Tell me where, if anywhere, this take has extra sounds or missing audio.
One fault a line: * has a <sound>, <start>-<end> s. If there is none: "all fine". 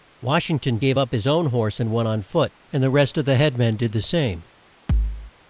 * has a thud, 4.9-5.3 s